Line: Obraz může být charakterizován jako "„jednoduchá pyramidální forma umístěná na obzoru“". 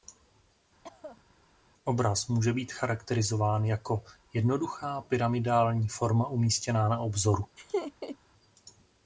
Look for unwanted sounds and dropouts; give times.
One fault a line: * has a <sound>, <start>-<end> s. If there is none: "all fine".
* has a cough, 0.8-1.3 s
* has a laugh, 7.6-8.2 s